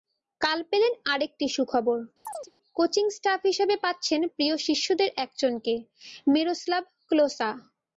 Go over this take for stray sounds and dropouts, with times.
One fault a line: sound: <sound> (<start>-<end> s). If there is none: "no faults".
sound: chirp (2.2-2.5 s)